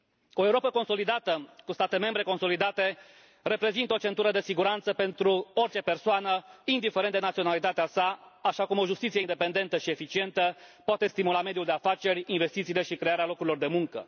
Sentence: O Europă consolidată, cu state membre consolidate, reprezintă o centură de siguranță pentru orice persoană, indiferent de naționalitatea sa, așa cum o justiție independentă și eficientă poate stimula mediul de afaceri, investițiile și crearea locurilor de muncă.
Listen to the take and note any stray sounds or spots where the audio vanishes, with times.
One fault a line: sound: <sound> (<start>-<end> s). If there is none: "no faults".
no faults